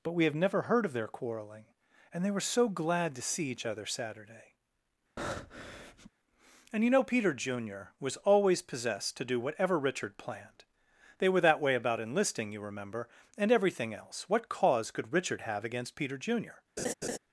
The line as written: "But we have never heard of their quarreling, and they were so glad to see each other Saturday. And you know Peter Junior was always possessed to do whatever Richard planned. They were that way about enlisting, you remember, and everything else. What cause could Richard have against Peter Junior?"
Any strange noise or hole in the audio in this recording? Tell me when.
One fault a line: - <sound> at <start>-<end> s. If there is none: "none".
- breath at 5.2-6.1 s
- laugh at 16.8-17.2 s